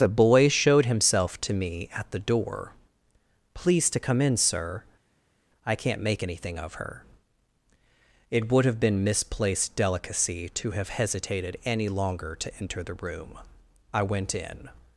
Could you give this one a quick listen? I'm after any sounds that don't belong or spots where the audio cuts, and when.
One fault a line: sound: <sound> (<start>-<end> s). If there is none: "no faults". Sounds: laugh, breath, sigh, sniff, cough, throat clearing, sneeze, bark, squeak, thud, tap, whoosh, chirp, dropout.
no faults